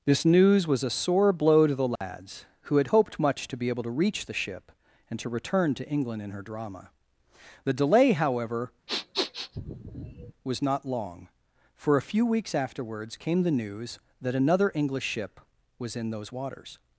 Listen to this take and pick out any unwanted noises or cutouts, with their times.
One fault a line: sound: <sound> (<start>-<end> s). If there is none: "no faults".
sound: dropout (2.0-2.0 s)
sound: sniff (8.9-10.3 s)